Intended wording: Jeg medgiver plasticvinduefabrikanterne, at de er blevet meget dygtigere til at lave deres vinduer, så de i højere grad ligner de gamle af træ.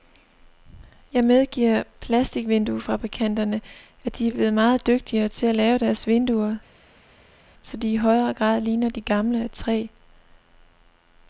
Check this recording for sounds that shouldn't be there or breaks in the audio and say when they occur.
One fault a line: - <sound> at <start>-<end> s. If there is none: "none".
none